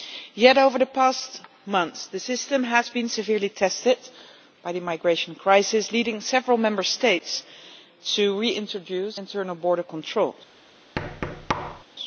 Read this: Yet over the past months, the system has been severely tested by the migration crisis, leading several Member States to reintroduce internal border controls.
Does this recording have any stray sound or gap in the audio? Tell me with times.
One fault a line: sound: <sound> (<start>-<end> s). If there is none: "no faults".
sound: thud (11.0-11.8 s)